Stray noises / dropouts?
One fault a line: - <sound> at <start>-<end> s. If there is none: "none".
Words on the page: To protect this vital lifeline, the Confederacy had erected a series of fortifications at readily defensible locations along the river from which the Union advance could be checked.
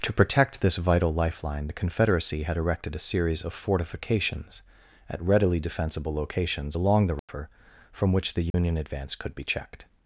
- dropout at 7.2-7.3 s
- dropout at 8.5-8.5 s